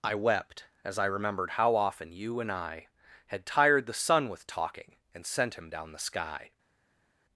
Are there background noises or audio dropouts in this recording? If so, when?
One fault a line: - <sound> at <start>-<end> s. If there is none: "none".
none